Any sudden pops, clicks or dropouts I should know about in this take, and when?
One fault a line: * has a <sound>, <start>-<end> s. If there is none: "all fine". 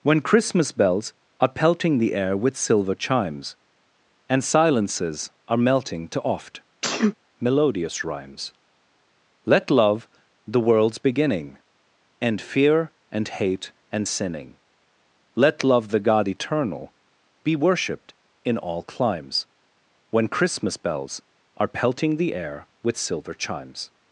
* has a sneeze, 6.8-7.1 s